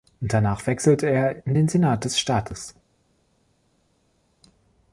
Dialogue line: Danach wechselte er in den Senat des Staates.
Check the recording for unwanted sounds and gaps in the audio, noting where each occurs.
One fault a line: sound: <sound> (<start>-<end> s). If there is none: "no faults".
no faults